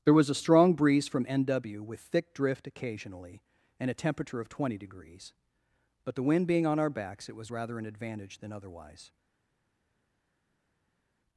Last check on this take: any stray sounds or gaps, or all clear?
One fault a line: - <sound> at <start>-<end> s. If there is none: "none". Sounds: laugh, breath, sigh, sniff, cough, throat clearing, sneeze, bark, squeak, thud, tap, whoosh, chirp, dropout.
none